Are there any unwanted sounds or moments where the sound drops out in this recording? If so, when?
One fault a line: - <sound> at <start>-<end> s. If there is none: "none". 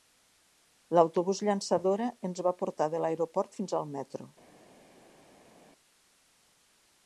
none